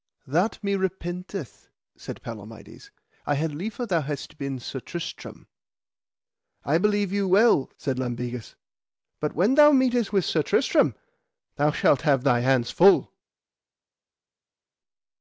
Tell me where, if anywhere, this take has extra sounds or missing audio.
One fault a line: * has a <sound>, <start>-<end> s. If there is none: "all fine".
all fine